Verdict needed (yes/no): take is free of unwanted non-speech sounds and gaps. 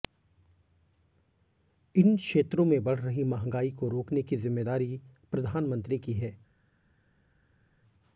yes